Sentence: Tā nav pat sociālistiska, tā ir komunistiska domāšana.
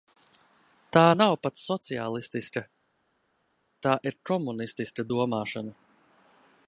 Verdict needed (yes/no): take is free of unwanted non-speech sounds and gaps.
yes